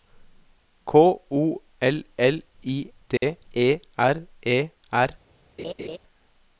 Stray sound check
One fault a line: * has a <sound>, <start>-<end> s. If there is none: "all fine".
* has a dropout, 3.2-3.2 s
* has a laugh, 5.6-6.0 s